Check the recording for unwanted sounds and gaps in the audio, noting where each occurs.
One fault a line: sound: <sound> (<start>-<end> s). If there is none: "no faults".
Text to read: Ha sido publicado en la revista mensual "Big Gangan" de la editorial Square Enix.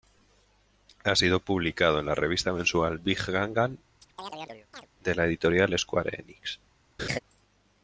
sound: chirp (4.0-4.9 s)
sound: laugh (7.0-7.2 s)